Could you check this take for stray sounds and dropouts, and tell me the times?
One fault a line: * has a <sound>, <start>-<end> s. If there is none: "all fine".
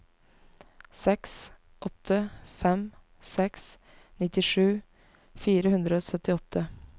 all fine